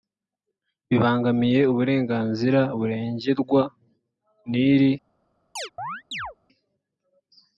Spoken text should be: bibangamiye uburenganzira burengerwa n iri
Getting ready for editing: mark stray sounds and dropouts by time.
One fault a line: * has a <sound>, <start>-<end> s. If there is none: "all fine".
* has a chirp, 5.6-6.4 s